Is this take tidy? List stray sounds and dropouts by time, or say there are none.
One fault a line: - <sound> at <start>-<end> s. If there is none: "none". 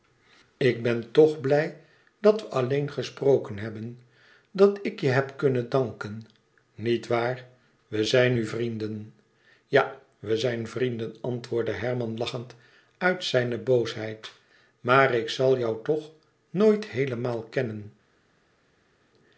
none